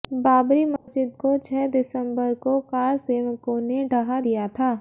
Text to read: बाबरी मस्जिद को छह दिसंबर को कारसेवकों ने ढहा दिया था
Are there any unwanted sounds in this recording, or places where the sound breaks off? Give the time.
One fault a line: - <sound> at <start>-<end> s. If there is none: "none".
- dropout at 0.8-0.9 s